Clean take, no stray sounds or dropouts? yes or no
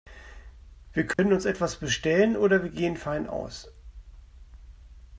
no